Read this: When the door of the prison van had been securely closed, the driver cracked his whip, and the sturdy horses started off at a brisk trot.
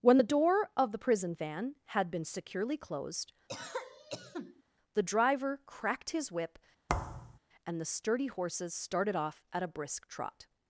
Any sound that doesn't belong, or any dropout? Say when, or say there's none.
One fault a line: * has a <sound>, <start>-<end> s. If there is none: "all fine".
* has a cough, 3.5-4.6 s
* has a thud, 6.9-7.4 s